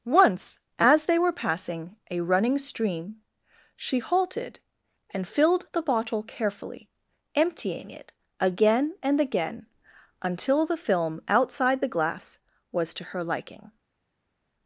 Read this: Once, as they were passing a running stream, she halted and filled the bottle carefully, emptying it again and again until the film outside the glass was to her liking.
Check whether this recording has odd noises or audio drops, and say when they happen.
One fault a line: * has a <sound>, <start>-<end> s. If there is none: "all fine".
all fine